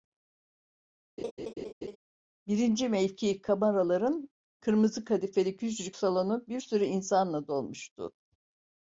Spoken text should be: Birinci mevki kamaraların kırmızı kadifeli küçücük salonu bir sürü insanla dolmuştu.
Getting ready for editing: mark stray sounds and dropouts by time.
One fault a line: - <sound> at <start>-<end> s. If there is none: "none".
- laugh at 1.2-2.0 s